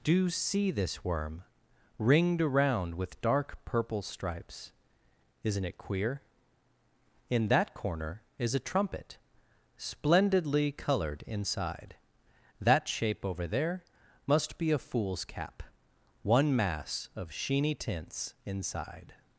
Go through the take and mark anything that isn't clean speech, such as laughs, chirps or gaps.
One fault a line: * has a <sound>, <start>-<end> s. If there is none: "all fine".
all fine